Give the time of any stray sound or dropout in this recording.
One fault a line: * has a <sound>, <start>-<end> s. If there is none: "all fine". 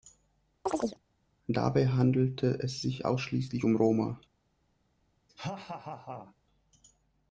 * has a chirp, 0.7-1.0 s
* has a laugh, 5.3-6.3 s